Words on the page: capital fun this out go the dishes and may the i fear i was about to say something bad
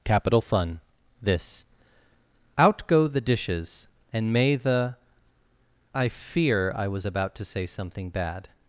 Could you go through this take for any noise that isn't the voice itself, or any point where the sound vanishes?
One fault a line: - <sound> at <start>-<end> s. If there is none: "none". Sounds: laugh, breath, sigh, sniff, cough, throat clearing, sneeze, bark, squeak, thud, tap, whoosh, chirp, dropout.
none